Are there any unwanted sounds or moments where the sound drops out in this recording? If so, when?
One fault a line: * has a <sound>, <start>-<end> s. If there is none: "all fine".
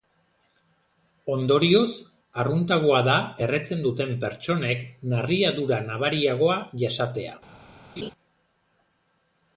* has a laugh, 8.0-8.1 s